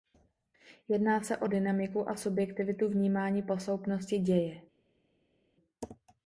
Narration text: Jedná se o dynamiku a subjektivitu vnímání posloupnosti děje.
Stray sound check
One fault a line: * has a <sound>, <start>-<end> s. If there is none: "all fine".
all fine